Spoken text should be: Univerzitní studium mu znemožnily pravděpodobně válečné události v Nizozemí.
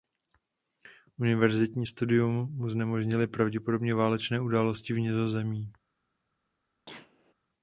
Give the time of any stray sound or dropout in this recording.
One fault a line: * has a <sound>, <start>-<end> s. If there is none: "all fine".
* has a cough, 6.9-7.3 s